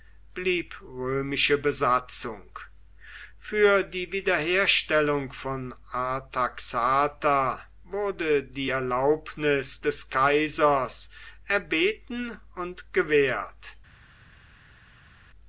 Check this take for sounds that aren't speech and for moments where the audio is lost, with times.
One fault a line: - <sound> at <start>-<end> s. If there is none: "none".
none